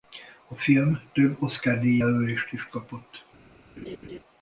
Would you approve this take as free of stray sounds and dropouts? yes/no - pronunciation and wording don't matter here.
no